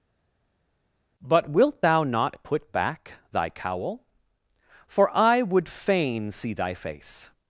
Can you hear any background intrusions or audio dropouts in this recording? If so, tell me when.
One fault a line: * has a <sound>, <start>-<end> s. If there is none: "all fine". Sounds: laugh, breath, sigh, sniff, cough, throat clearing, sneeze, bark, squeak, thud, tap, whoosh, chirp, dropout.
all fine